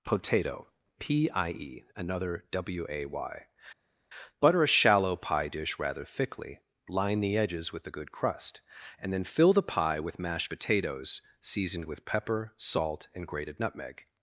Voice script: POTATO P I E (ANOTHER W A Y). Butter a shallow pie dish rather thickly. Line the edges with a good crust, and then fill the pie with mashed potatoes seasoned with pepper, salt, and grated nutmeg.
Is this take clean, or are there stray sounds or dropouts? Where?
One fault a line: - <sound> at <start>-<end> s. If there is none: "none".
none